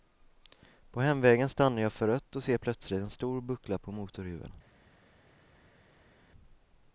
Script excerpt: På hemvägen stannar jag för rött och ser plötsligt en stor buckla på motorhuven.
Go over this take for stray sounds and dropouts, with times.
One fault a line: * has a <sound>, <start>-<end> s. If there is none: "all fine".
all fine